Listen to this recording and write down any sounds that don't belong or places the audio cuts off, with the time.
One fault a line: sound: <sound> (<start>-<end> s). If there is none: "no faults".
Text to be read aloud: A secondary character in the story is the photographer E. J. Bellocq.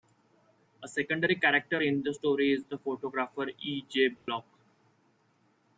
sound: dropout (4.2-4.3 s)